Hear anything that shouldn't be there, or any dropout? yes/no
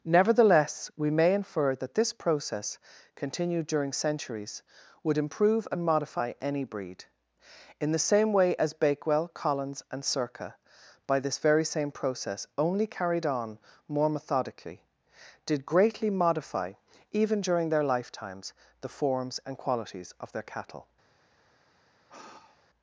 yes